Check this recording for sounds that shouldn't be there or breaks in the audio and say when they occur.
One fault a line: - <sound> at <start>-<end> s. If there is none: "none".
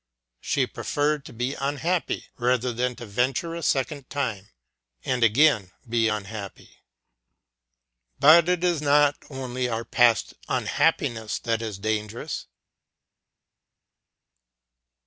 none